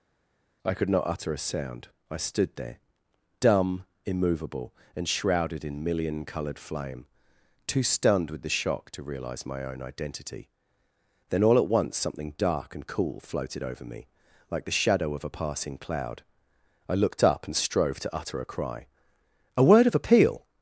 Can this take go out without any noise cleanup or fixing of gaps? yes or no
yes